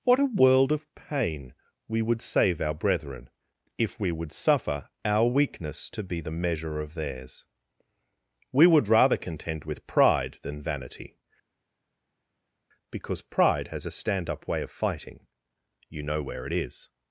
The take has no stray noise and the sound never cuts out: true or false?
true